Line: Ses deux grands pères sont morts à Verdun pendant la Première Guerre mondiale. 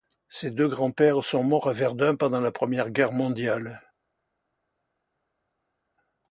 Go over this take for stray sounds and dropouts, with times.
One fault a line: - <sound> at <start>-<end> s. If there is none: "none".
none